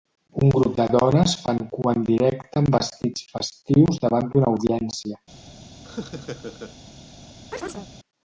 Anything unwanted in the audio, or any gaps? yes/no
yes